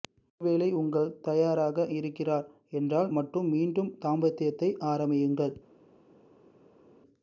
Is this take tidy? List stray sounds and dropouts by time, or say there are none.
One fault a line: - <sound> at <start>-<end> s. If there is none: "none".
none